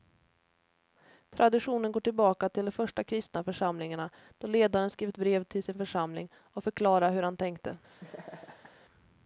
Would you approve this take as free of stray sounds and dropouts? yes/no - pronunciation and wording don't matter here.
no